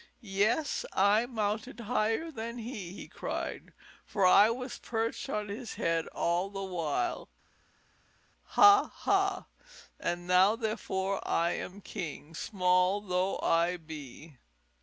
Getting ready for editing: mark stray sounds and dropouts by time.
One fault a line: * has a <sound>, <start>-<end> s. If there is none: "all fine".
all fine